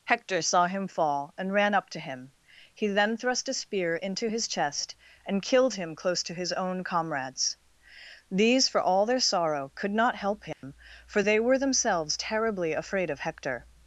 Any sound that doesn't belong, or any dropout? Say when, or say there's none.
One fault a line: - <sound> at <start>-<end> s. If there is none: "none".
- dropout at 10.5-10.6 s